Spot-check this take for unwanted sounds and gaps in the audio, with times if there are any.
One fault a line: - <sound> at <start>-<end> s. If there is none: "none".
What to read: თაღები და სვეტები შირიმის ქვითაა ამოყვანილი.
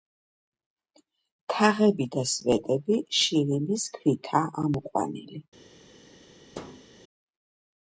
- thud at 6.5-6.9 s